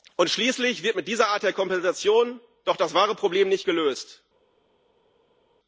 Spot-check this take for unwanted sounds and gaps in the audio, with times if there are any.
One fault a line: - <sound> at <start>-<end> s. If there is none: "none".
none